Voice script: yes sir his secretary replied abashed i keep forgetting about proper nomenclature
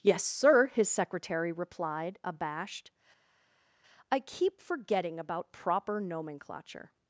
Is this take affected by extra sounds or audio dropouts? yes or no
no